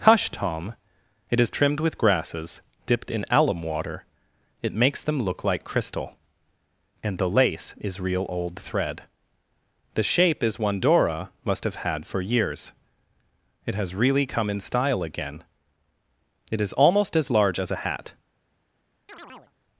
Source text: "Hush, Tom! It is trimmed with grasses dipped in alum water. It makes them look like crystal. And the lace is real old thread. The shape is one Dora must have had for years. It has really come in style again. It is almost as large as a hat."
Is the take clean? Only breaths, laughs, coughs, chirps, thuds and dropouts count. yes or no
no